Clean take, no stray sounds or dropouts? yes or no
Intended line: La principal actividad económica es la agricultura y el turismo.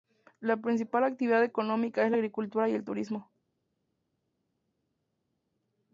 yes